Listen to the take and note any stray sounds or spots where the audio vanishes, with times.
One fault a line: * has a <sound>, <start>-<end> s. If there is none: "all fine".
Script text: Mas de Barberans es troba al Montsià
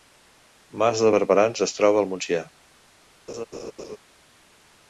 * has a laugh, 3.3-4.0 s